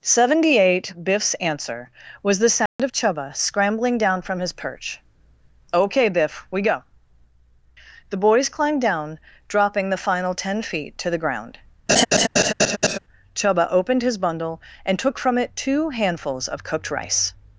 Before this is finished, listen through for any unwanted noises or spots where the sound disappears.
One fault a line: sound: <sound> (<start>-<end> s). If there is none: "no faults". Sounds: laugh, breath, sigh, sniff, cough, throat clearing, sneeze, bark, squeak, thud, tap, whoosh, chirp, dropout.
sound: dropout (2.7-2.8 s)
sound: laugh (11.9-13.0 s)